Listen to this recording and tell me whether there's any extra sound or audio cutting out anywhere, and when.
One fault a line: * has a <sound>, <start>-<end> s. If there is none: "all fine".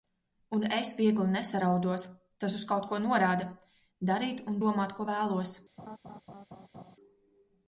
* has a laugh, 5.8-7.0 s